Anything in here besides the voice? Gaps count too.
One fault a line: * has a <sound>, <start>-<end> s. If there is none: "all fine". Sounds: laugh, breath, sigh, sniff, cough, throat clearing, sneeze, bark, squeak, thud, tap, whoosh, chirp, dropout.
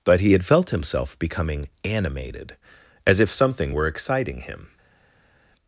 all fine